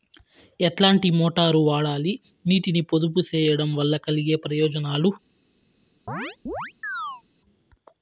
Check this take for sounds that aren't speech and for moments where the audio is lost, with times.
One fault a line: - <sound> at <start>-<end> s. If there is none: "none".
- chirp at 6.1-7.2 s